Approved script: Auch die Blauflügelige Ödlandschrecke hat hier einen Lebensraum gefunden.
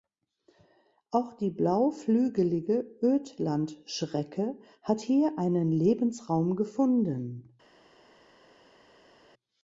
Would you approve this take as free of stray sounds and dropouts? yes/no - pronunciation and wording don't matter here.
yes